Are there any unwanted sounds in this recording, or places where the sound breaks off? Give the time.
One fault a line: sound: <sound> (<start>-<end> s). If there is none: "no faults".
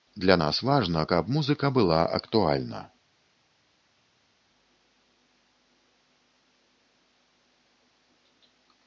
no faults